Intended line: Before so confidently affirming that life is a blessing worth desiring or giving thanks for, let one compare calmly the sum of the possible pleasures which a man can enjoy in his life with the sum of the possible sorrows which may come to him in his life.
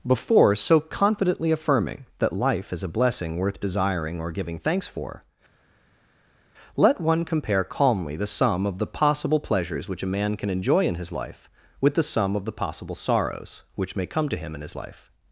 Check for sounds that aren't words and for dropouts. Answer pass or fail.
pass